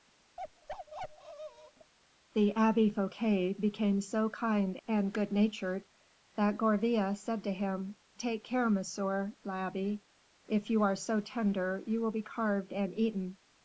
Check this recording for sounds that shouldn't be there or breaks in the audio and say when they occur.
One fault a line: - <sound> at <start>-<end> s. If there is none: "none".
- bark at 0.4-1.9 s